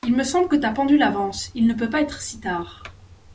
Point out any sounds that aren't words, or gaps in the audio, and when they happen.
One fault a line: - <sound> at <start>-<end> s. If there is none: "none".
none